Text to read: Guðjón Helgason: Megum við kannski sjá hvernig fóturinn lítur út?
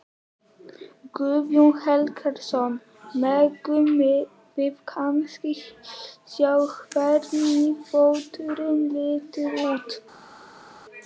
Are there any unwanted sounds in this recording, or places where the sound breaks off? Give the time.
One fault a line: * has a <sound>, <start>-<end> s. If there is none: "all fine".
all fine